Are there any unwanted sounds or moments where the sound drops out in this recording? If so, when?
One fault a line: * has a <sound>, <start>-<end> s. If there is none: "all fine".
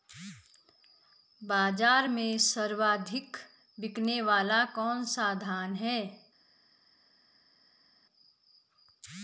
all fine